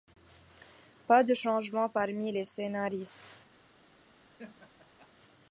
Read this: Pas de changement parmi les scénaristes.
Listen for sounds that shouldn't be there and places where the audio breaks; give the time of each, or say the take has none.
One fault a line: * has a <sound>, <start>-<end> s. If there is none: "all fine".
* has a laugh, 4.2-5.1 s